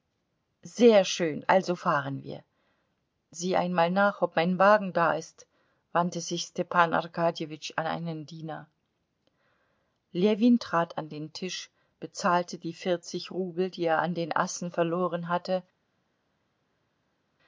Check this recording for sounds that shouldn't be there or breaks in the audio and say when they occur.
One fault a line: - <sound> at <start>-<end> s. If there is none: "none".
none